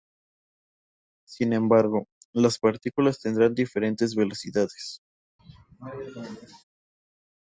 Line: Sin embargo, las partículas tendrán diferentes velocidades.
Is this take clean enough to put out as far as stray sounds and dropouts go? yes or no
no